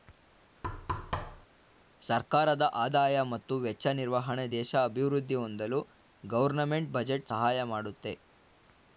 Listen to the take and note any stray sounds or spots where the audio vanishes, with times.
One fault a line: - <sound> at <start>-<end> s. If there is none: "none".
- thud at 0.6-1.5 s